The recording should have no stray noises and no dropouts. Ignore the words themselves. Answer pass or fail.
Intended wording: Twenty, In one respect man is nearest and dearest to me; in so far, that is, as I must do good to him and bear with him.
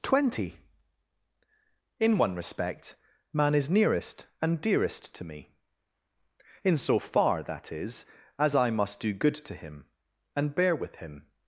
pass